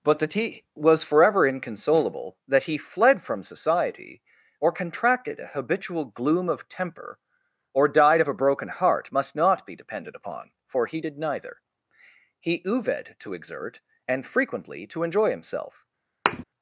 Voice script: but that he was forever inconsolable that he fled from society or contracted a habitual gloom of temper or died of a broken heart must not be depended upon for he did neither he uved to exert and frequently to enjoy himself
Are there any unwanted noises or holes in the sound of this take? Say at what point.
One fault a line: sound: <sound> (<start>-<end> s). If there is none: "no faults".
sound: thud (16.3-16.4 s)